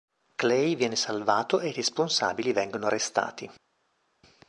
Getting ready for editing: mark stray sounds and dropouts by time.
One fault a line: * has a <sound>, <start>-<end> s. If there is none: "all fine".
all fine